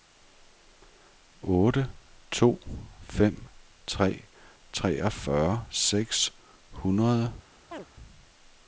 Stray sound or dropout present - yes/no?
yes